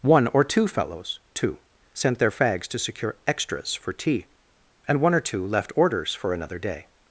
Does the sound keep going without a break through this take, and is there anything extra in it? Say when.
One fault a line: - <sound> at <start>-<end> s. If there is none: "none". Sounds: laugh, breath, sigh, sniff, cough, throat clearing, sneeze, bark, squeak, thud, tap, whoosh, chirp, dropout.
none